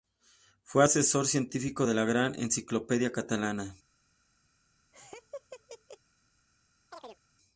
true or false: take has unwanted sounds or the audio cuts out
true